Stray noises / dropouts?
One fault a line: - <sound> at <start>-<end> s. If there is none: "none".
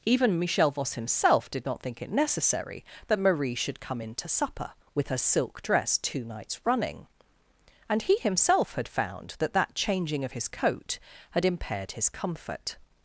none